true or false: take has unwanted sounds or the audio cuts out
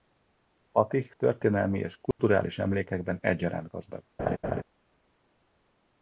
true